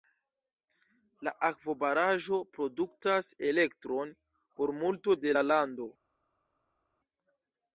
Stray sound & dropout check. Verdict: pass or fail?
pass